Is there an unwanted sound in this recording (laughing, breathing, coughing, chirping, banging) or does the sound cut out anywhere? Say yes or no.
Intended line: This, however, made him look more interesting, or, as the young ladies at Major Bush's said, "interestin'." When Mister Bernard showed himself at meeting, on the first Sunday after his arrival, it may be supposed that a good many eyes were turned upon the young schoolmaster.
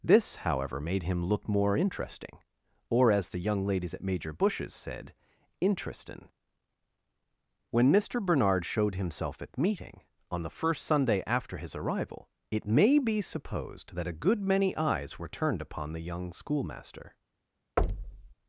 yes